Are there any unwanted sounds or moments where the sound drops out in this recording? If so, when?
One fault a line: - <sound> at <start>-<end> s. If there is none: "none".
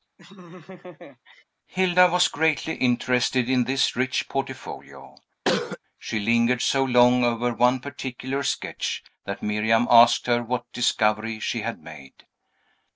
- laugh at 0.2-1.4 s
- cough at 5.4-5.8 s